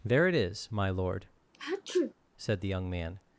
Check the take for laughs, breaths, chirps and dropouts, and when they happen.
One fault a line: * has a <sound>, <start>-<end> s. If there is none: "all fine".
* has a sneeze, 1.5-2.1 s